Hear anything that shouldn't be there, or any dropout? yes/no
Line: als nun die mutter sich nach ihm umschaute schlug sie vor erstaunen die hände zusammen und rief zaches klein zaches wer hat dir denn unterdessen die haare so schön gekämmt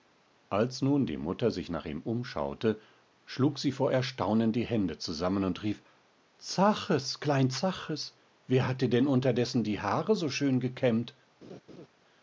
yes